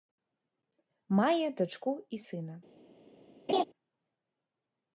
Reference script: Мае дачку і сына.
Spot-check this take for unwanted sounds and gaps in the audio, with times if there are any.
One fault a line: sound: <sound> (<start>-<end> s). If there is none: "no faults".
sound: laugh (3.5-3.6 s)